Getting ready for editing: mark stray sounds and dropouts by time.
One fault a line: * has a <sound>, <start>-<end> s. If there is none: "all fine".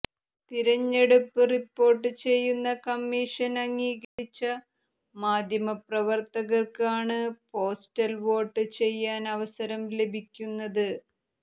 * has a dropout, 4.0-4.2 s